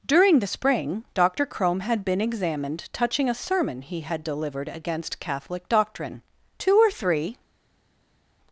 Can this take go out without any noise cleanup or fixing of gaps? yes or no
yes